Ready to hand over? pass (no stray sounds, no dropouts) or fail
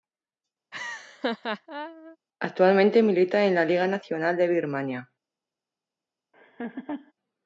fail